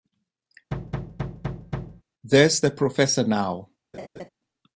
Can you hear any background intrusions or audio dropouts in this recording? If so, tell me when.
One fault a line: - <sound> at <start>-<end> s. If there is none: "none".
- thud at 0.7-2.0 s
- laugh at 3.9-4.3 s